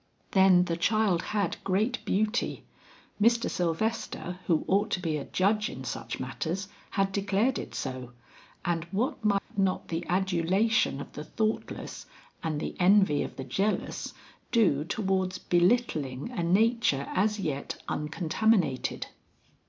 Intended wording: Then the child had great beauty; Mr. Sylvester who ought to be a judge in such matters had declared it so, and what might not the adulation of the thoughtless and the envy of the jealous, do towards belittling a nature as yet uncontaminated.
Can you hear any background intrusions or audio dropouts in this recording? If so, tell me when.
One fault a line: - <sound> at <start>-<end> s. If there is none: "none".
- dropout at 9.4-9.5 s